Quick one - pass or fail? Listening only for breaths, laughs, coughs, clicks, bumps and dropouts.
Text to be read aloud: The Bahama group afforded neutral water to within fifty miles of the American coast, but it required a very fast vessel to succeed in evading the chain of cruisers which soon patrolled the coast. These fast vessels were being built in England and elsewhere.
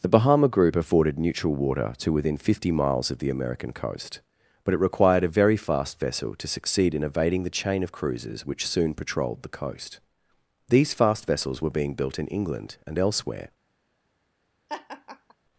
fail